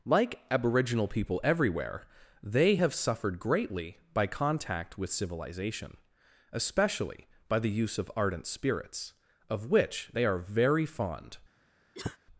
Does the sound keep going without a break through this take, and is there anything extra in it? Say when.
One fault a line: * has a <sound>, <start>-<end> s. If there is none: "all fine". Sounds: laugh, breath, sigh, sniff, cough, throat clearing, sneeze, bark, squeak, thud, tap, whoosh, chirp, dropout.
* has a cough, 11.9-12.2 s